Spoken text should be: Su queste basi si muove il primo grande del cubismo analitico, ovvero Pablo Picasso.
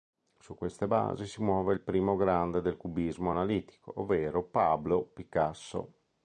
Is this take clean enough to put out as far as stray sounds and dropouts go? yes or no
yes